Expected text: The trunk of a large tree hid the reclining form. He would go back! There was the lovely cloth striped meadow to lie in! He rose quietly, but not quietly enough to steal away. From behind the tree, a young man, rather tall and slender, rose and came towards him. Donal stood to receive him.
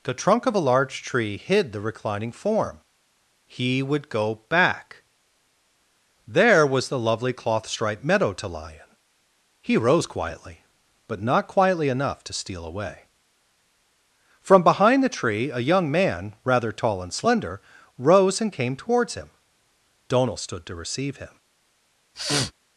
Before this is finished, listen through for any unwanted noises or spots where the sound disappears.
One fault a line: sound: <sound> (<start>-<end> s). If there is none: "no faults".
sound: sniff (22.1-22.5 s)